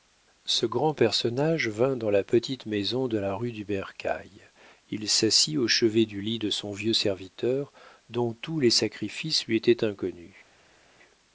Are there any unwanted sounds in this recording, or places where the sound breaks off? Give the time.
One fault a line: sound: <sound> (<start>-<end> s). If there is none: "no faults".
no faults